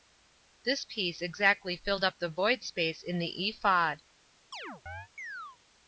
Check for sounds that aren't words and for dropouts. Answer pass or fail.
fail